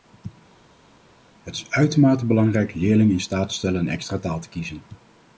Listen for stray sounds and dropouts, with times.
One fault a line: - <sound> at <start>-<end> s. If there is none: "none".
none